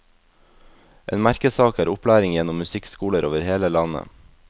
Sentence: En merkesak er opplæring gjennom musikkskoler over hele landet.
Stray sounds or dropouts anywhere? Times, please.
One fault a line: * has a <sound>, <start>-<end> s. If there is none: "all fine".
all fine